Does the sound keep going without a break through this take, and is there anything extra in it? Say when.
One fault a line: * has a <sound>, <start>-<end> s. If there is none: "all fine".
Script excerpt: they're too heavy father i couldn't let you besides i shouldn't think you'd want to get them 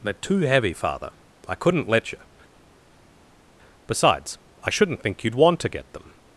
all fine